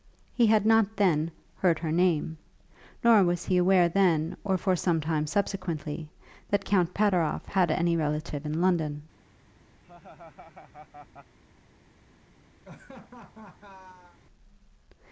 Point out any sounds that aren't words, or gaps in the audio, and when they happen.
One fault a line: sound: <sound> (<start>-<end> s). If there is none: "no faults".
sound: laugh (9.8-11.4 s)
sound: laugh (12.6-14.2 s)